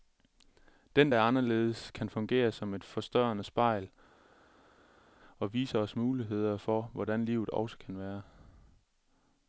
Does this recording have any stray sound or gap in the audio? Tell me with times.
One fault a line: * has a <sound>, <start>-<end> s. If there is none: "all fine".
all fine